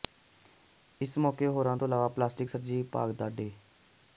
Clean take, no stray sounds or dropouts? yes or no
yes